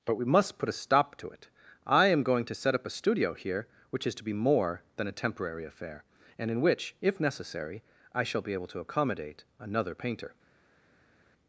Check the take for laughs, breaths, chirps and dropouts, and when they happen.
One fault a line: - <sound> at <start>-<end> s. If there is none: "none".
none